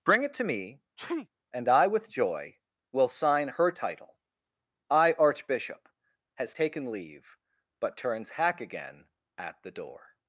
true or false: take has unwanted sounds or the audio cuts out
true